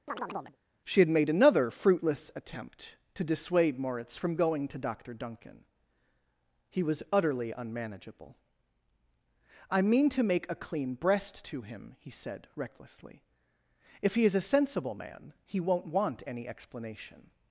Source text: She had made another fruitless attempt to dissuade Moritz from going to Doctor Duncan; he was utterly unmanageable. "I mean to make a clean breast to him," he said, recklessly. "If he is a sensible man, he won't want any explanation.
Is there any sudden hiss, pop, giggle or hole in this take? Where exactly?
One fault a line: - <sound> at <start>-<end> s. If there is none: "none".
- chirp at 0.1-0.6 s